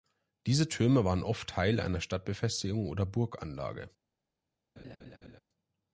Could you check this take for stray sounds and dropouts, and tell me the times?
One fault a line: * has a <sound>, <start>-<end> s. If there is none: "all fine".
* has a laugh, 4.8-5.4 s